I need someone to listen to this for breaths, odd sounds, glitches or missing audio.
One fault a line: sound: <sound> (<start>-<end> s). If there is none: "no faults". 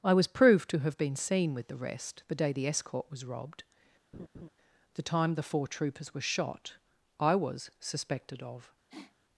sound: laugh (4.1-4.5 s)
sound: sniff (8.9-9.1 s)